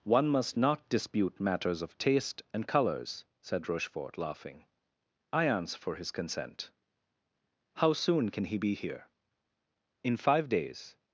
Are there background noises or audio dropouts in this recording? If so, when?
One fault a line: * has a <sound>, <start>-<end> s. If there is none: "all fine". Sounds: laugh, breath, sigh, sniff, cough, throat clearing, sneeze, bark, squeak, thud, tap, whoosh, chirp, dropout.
all fine